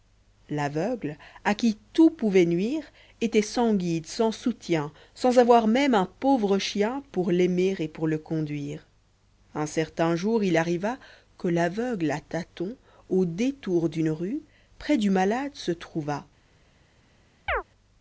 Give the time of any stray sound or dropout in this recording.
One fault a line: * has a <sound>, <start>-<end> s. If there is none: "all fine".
* has a chirp, 17.5-17.6 s